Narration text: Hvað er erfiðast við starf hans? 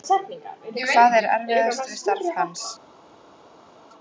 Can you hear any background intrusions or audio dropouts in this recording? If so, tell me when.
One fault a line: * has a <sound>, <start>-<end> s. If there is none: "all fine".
all fine